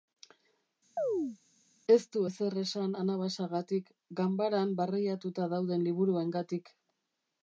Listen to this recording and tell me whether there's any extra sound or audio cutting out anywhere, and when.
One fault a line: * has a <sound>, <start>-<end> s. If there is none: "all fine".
* has a chirp, 1.0-1.4 s